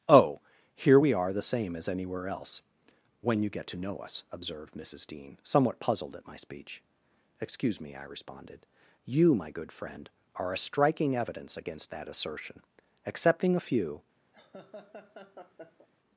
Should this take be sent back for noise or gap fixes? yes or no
yes